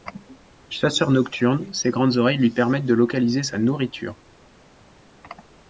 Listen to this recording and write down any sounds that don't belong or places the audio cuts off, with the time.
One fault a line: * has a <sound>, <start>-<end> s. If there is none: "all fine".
all fine